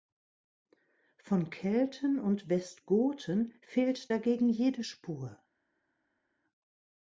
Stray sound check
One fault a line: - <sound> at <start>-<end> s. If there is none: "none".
none